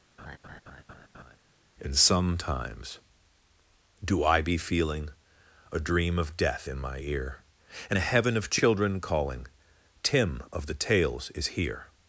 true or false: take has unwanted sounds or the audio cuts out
true